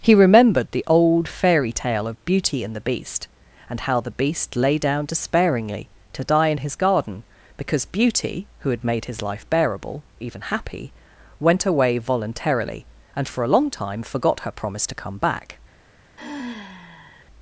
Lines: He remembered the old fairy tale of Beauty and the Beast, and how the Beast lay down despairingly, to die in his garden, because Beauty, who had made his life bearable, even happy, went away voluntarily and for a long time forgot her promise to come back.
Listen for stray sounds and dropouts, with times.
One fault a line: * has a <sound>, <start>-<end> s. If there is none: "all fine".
* has a sigh, 16.2-17.3 s